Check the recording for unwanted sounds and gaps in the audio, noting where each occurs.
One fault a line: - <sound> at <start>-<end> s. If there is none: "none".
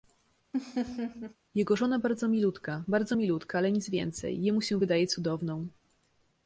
- laugh at 0.5-1.4 s